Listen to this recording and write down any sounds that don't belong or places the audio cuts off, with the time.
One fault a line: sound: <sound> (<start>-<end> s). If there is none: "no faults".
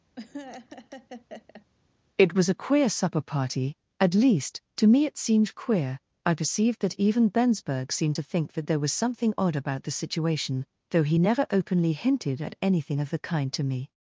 sound: laugh (0.2-1.7 s)